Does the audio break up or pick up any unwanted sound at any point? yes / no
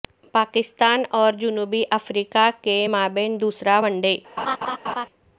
yes